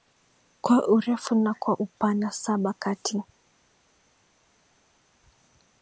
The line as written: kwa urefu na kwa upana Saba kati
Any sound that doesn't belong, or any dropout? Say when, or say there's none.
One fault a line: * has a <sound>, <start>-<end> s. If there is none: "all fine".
all fine